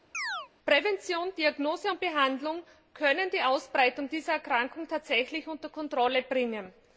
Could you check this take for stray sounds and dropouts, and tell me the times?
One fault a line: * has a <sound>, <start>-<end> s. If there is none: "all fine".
* has a chirp, 0.1-0.5 s